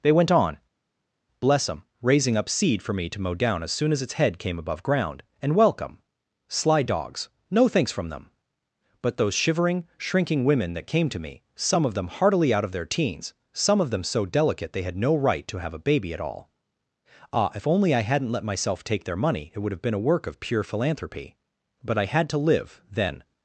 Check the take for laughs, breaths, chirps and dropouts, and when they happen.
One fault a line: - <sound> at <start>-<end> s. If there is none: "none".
none